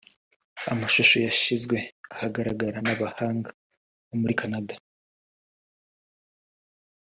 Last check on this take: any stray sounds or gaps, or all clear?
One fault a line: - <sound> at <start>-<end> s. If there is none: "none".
none